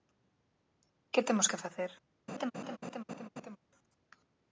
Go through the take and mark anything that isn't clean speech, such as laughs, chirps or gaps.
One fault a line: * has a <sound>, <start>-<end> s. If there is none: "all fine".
* has a laugh, 2.3-3.6 s